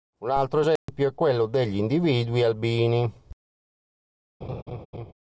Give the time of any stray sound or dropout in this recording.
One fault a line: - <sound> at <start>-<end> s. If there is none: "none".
- dropout at 0.8-0.9 s
- laugh at 4.4-5.1 s